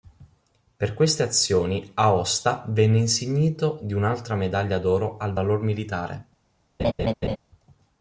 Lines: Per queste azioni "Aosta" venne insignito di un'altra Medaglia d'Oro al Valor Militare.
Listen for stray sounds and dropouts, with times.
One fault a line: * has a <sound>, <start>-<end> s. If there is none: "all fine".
* has a laugh, 6.8-7.4 s